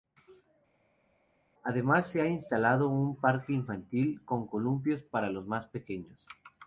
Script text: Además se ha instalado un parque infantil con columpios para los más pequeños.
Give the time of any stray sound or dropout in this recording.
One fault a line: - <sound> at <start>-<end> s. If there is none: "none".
none